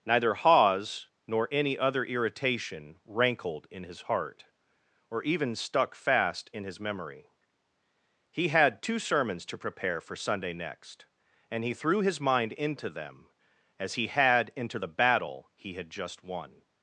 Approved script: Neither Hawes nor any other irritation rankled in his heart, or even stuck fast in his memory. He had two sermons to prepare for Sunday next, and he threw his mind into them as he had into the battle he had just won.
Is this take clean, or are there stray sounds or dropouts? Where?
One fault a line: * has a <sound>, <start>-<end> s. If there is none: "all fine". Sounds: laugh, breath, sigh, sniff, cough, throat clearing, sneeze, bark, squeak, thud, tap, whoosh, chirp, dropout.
all fine